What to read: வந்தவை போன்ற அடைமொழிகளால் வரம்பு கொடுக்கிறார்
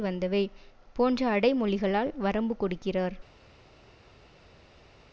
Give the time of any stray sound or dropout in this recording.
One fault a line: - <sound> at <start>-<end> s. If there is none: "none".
none